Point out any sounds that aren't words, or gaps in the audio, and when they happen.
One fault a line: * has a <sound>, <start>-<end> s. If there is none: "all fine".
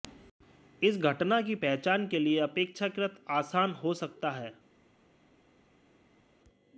all fine